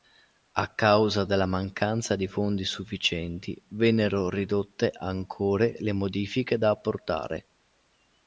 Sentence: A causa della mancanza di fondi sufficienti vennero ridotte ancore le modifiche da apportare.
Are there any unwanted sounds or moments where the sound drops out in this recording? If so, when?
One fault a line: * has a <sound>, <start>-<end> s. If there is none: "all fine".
all fine